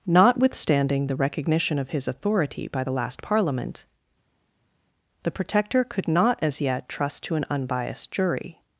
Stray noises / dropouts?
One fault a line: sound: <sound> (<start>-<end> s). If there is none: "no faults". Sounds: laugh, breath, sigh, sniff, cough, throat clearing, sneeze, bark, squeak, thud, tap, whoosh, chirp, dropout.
no faults